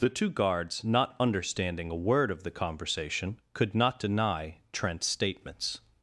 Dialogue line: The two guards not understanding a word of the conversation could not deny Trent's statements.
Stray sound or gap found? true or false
false